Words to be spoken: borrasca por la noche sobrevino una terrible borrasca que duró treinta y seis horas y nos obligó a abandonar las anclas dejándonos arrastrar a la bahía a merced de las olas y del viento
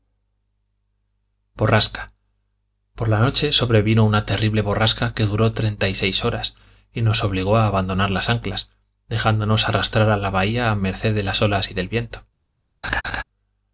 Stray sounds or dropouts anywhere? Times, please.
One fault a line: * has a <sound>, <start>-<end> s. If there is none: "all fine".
* has a laugh, 12.8-13.2 s